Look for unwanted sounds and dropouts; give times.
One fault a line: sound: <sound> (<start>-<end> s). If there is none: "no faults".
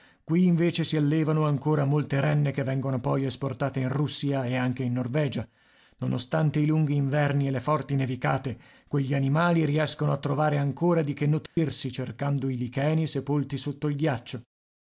sound: dropout (11.5-11.6 s)